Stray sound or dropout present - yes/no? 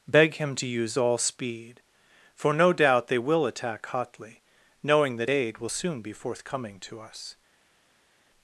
no